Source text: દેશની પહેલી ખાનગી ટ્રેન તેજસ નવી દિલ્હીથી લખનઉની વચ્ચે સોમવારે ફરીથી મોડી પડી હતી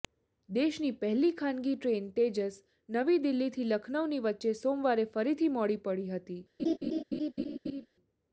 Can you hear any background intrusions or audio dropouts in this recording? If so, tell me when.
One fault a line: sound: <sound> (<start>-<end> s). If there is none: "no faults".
sound: laugh (6.6-7.9 s)